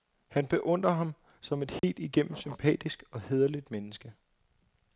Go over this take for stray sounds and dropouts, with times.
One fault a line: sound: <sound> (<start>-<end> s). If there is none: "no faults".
sound: dropout (1.8-1.8 s)